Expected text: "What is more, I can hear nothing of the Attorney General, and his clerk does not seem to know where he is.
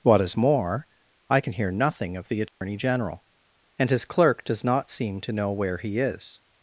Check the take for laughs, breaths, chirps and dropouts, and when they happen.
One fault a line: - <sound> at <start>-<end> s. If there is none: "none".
- dropout at 2.5-2.6 s